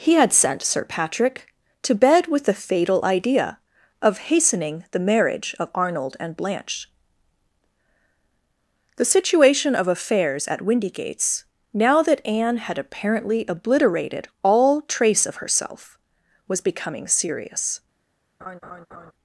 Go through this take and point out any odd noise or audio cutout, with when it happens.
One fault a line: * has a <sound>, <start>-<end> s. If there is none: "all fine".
* has a laugh, 18.4-19.1 s